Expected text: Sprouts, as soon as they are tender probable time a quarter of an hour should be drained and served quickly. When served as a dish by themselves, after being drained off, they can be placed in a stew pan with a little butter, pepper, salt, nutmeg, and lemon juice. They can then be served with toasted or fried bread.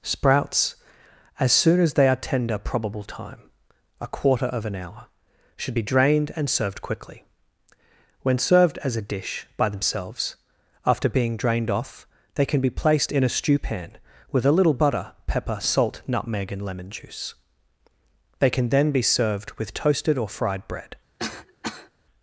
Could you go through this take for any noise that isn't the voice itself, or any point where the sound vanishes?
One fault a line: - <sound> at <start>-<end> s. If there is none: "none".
- cough at 21.2-21.9 s